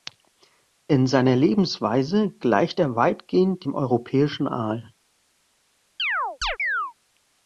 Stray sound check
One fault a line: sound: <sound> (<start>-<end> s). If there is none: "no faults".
sound: chirp (6.0-6.9 s)